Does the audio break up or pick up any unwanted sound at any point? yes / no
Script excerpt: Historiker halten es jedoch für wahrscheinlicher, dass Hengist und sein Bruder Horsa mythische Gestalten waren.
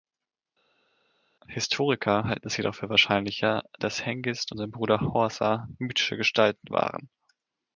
no